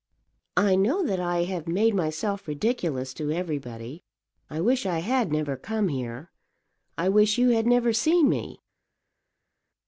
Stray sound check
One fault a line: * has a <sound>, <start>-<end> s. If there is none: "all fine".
all fine